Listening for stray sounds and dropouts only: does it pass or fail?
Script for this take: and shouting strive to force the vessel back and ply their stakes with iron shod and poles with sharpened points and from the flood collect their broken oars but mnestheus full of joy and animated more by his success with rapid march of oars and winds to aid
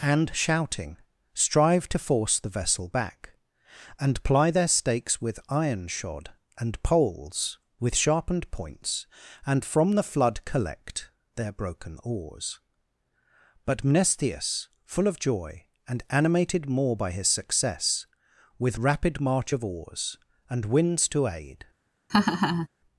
fail